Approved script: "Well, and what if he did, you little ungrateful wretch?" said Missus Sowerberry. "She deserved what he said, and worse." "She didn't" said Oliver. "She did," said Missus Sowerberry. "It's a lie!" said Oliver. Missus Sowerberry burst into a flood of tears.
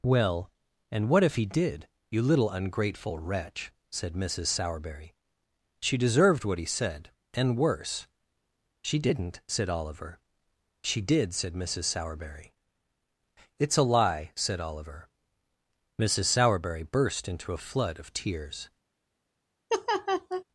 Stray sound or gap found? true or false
true